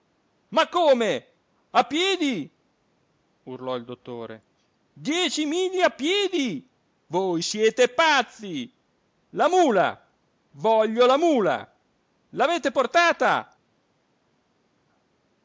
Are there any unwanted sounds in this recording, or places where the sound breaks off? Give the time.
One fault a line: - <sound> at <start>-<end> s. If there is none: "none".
none